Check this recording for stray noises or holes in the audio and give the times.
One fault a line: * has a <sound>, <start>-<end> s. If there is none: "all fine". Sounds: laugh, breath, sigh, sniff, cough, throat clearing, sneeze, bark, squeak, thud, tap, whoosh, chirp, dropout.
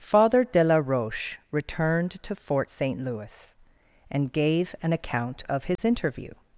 * has a dropout, 5.8-5.8 s